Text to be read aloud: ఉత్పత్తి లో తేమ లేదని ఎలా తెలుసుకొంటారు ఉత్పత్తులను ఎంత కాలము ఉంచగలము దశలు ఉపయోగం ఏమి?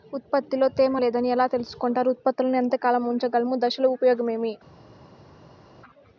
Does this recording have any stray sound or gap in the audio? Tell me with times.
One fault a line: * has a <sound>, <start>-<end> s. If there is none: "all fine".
all fine